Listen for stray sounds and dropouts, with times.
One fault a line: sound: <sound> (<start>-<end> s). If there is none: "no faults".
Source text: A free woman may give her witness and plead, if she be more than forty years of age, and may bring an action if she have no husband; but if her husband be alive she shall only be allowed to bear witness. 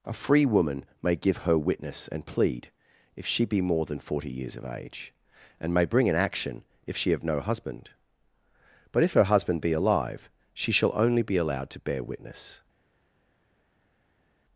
no faults